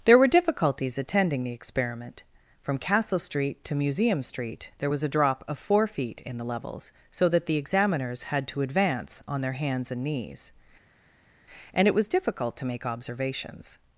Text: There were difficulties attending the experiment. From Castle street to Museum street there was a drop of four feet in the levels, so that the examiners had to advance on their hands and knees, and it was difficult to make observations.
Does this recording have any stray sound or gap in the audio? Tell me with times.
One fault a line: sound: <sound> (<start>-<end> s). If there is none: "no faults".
no faults